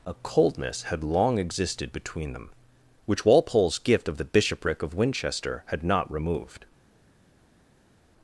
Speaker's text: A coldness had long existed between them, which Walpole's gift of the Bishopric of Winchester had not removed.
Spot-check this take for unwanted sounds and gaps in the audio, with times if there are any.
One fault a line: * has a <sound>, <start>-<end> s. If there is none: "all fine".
all fine